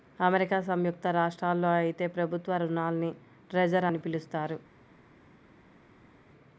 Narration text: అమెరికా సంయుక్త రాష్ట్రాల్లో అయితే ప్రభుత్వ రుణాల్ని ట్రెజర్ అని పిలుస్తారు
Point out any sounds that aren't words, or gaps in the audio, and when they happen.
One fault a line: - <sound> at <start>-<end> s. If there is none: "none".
none